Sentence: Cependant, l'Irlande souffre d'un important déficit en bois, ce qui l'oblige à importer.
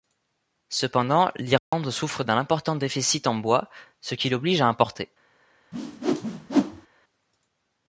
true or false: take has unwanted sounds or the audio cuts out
true